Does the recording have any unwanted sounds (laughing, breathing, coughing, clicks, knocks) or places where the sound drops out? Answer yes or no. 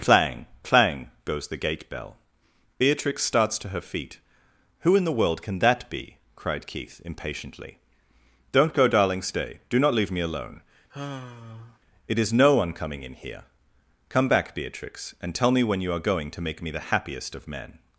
yes